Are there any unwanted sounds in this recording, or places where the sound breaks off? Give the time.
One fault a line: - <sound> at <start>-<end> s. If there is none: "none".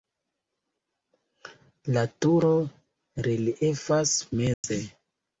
- dropout at 4.5-4.6 s